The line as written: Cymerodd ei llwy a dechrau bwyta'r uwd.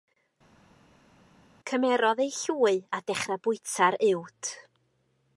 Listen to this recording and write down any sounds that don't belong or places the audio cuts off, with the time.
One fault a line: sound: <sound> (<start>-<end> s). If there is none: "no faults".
no faults